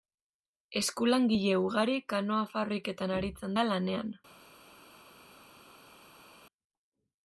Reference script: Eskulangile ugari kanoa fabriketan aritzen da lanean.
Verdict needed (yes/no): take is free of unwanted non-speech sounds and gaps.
yes